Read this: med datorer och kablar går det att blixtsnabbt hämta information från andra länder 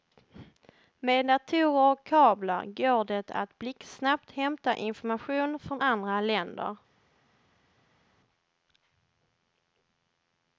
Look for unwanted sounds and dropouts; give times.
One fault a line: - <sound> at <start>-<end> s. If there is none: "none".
none